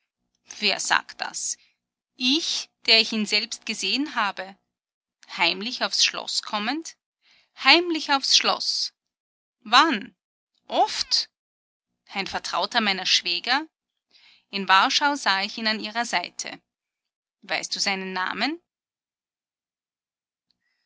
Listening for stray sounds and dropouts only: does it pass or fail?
pass